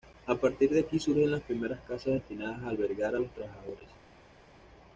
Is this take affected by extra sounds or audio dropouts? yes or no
no